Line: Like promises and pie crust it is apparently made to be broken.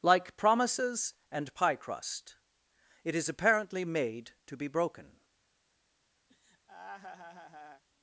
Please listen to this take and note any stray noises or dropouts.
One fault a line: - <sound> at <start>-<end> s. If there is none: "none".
- laugh at 6.3-7.8 s